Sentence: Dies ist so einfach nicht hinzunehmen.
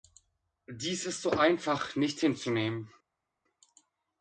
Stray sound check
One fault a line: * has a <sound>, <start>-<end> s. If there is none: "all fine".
all fine